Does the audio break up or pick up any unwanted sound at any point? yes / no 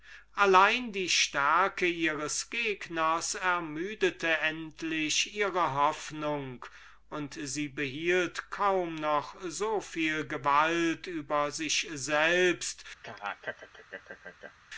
yes